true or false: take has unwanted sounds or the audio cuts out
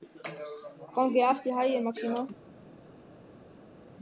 false